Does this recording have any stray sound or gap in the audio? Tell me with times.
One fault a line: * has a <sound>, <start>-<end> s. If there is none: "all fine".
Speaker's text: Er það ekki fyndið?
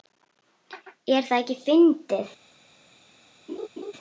* has a laugh, 3.5-3.9 s